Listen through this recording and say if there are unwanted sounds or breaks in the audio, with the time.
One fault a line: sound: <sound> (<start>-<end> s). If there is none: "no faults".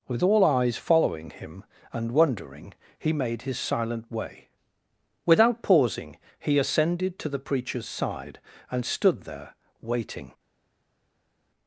no faults